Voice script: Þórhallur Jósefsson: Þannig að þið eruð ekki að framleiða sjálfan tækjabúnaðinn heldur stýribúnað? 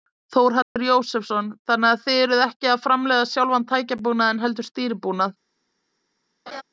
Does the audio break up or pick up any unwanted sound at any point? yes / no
yes